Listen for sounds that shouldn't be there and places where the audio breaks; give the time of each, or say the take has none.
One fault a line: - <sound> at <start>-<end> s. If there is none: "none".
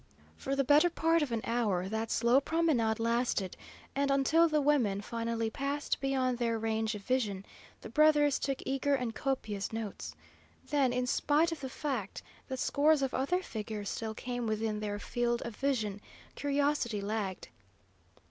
none